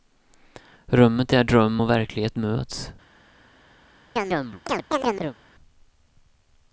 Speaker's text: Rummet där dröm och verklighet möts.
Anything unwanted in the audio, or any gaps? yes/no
yes